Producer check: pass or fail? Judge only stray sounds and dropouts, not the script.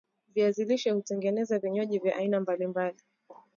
pass